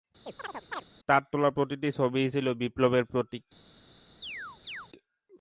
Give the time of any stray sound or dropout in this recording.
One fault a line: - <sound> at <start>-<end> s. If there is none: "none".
- chirp at 0.3-0.8 s
- chirp at 4.2-4.9 s